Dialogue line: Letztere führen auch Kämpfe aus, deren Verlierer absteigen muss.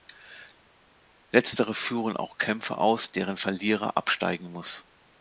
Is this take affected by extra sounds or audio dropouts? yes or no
no